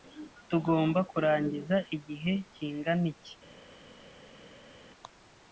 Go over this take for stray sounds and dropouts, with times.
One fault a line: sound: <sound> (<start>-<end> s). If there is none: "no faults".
no faults